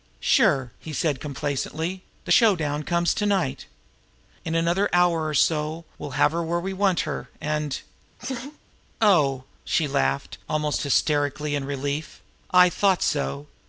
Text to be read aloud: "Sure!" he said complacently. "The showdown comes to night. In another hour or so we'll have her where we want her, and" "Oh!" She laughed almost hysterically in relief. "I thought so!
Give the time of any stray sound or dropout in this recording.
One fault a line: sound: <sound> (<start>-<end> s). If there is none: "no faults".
sound: laugh (8.2-8.6 s)